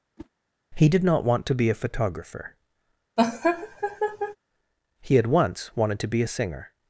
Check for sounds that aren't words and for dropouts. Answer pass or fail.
fail